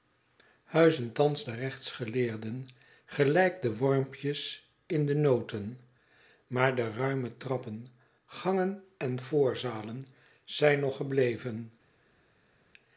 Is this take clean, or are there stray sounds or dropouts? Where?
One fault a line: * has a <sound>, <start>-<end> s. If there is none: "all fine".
all fine